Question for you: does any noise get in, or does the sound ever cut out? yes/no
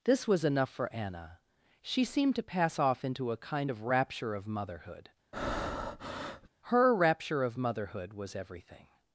yes